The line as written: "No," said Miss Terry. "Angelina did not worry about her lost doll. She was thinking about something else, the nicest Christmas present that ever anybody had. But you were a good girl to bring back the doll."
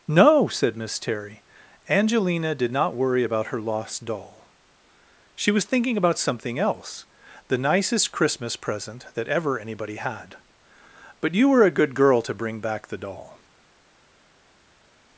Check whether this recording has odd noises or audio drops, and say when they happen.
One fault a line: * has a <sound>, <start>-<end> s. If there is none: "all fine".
all fine